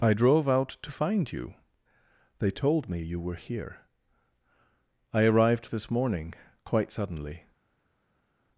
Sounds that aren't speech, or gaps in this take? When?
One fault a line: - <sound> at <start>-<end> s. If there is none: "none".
none